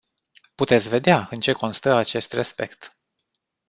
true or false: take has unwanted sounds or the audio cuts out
false